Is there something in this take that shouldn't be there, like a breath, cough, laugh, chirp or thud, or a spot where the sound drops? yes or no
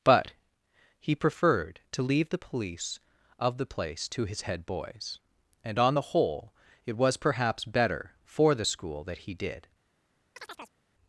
yes